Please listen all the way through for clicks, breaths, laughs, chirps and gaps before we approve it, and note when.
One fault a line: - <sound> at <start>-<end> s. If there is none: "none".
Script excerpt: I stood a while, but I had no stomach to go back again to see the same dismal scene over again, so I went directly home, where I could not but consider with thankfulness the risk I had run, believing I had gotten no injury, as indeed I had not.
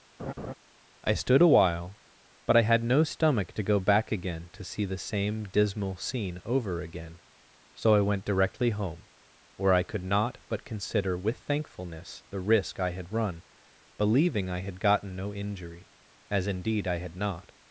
- laugh at 0.2-0.5 s